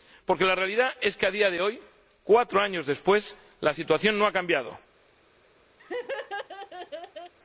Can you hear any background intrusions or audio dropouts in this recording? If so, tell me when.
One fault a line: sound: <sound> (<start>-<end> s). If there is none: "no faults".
sound: laugh (5.8-7.3 s)